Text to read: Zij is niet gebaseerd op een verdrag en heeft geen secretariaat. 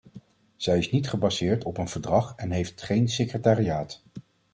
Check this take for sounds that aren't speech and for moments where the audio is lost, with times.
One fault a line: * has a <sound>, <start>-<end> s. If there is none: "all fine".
all fine